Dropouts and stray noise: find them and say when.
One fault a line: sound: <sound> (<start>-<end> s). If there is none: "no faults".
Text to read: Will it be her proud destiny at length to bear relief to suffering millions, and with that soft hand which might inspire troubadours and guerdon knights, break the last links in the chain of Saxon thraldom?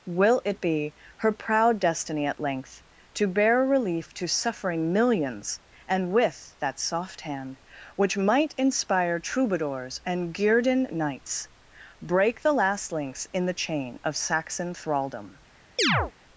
sound: chirp (15.8-16.1 s)